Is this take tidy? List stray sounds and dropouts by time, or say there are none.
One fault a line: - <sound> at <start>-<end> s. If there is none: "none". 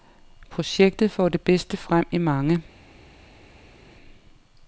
none